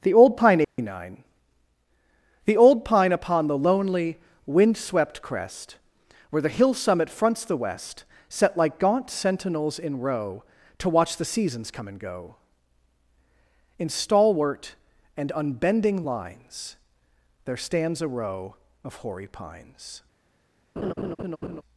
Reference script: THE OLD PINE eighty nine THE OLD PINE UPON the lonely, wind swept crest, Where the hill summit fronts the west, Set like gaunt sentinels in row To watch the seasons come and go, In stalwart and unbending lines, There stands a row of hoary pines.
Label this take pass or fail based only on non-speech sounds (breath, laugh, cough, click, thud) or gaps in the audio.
fail